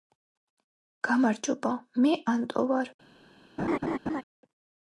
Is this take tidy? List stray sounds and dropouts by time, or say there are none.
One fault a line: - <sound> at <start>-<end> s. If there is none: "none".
- laugh at 3.6-4.2 s